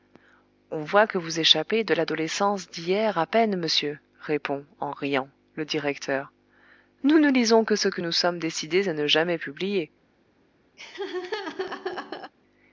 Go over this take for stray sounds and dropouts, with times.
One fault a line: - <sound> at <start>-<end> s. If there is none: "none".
- laugh at 10.8-12.3 s